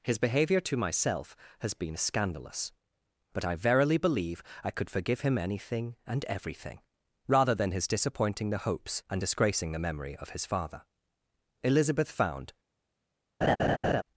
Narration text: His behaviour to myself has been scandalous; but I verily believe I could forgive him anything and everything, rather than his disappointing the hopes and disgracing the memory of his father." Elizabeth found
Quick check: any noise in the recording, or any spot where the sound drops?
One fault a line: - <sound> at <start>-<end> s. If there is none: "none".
- laugh at 13.4-14.0 s